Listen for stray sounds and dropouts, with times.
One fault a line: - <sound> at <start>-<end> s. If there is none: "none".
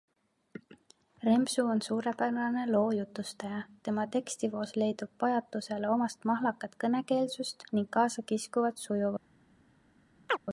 - chirp at 10.3-10.4 s